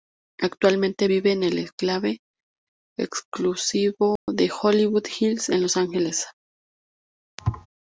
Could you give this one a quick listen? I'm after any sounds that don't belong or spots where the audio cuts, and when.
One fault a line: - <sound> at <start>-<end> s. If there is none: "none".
- dropout at 4.2-4.3 s
- thud at 7.4-7.7 s